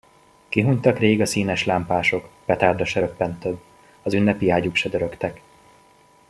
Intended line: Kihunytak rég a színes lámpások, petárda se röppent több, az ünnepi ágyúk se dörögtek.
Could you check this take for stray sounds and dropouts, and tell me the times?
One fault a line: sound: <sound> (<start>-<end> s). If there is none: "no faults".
no faults